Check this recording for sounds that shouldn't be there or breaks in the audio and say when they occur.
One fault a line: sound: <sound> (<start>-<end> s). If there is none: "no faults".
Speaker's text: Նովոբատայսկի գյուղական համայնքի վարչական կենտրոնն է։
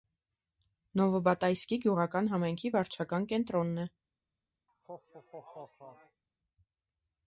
sound: laugh (4.7-6.2 s)